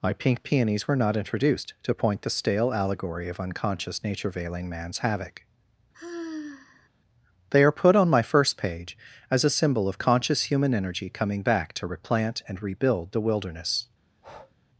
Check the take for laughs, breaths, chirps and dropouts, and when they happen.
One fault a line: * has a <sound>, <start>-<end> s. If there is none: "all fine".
* has a sigh, 5.9-6.9 s
* has a breath, 14.1-14.6 s